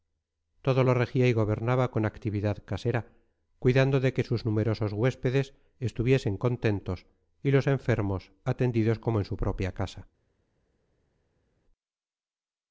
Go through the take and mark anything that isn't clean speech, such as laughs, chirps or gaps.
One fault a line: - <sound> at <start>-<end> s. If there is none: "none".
none